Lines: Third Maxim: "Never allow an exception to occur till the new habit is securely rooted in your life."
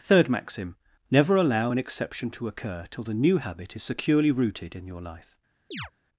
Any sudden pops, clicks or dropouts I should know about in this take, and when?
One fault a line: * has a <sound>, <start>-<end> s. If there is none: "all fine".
* has a chirp, 5.7-5.9 s